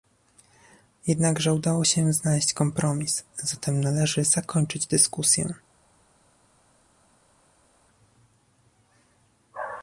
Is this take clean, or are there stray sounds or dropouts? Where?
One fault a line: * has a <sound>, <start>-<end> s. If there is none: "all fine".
all fine